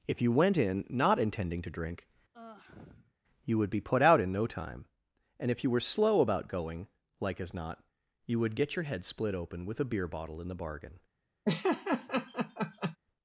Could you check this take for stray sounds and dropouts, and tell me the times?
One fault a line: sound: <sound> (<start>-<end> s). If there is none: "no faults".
sound: sigh (2.3-3.1 s)
sound: laugh (11.5-13.0 s)